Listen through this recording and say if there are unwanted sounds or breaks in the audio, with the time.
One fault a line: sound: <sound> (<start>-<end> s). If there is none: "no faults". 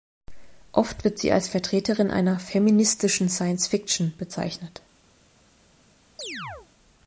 sound: chirp (6.2-6.7 s)